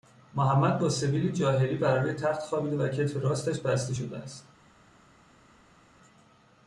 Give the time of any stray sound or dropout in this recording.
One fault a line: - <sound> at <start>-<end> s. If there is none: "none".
none